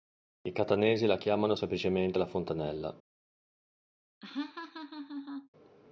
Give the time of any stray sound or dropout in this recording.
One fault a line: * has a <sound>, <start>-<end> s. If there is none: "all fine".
* has a laugh, 4.2-5.5 s